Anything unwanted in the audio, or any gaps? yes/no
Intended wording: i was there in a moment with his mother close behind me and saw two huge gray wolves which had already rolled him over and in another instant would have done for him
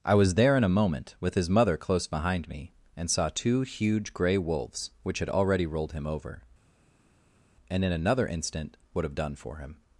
no